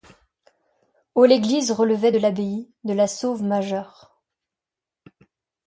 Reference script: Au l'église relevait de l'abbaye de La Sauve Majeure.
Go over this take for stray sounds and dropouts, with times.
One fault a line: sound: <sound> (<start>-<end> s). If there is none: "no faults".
no faults